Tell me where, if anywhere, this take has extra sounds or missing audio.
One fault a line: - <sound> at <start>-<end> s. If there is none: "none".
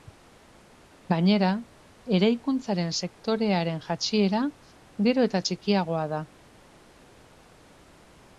none